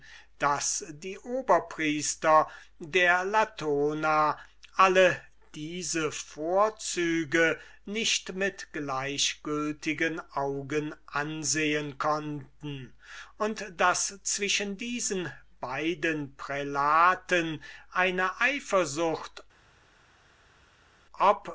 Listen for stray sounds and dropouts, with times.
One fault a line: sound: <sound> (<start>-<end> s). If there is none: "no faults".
no faults